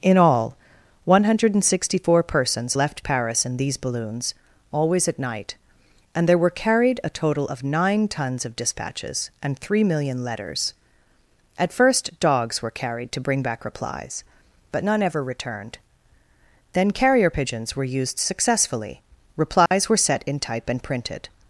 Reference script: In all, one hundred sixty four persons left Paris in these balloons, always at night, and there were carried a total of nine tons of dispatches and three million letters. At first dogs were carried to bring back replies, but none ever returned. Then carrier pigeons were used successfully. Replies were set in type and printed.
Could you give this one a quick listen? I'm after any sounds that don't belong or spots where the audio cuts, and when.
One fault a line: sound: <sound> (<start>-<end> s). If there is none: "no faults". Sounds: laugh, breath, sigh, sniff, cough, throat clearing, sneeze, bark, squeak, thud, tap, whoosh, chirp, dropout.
sound: dropout (19.7-19.7 s)